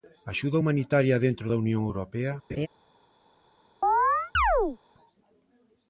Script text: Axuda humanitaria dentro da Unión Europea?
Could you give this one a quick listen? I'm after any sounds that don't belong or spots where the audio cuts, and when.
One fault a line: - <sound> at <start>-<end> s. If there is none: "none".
- laugh at 2.5-2.7 s
- chirp at 3.8-4.8 s